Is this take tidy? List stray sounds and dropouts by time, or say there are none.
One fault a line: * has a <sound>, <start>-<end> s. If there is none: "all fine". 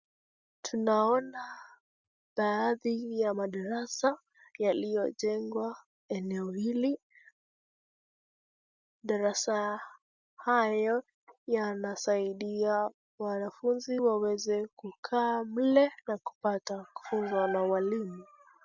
all fine